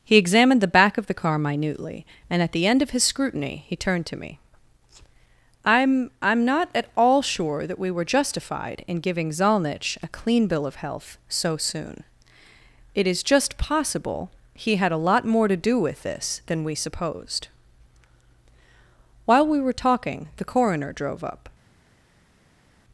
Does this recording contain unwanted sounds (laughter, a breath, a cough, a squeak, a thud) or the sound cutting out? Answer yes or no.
no